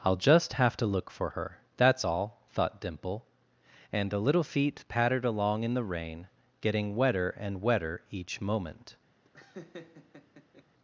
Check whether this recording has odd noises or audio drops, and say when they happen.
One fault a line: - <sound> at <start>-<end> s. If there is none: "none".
- laugh at 9.2-10.6 s